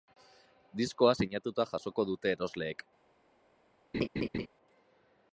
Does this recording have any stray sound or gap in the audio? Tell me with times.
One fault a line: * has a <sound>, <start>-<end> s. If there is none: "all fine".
* has a laugh, 3.9-4.5 s